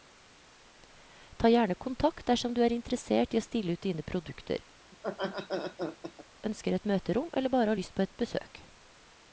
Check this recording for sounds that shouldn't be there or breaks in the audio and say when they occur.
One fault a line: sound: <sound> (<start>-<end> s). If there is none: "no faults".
sound: laugh (4.9-6.2 s)